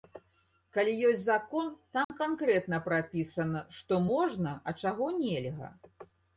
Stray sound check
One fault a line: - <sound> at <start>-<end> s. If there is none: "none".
- dropout at 2.0-2.1 s